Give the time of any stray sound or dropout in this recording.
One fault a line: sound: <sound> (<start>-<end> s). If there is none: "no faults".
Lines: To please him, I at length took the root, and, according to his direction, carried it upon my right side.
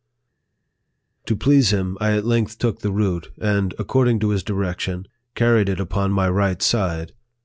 no faults